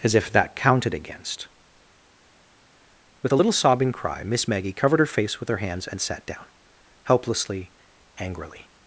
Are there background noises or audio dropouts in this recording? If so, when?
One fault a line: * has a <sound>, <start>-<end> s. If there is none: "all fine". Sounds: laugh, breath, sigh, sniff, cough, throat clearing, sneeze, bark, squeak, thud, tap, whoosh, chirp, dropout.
all fine